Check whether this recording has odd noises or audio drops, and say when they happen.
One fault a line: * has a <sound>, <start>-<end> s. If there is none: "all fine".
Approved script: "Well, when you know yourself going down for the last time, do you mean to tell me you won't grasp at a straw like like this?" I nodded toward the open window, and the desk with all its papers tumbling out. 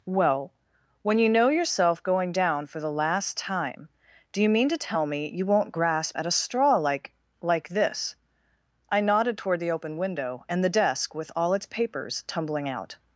all fine